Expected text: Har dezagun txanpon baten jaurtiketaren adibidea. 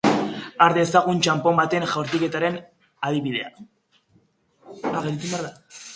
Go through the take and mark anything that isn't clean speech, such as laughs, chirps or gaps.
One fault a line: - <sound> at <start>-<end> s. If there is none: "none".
none